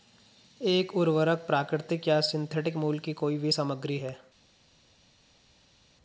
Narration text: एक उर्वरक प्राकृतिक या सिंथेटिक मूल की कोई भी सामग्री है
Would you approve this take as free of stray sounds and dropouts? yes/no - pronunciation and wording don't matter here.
yes